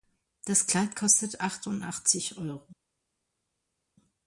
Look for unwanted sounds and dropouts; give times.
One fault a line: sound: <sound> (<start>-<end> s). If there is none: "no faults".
no faults